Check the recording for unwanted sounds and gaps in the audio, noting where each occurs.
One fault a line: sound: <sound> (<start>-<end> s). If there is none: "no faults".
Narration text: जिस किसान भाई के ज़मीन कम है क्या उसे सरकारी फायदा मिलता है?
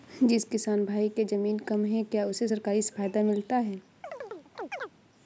sound: chirp (4.0-4.9 s)